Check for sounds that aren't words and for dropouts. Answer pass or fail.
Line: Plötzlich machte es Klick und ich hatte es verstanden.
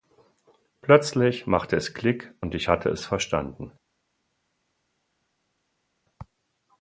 pass